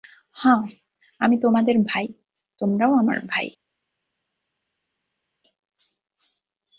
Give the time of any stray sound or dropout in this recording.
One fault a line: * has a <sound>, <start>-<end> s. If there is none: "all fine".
all fine